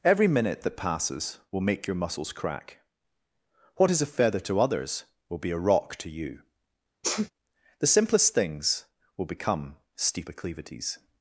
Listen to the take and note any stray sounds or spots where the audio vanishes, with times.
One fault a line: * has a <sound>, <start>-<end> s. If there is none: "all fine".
* has a sneeze, 7.0-7.3 s